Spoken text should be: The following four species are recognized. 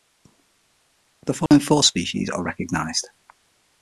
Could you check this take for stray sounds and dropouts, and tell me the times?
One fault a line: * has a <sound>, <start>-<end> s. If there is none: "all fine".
* has a dropout, 1.5-1.5 s